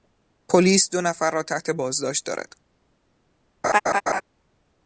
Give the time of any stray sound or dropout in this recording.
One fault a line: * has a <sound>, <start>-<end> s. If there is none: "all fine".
* has a laugh, 3.6-4.2 s